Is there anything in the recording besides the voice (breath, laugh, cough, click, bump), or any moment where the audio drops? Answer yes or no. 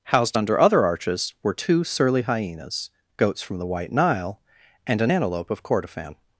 no